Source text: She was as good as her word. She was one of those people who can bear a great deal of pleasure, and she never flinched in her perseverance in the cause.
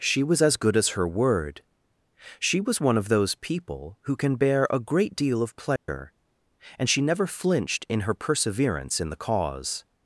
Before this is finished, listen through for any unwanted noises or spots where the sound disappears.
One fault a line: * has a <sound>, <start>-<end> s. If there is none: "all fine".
* has a dropout, 5.8-5.9 s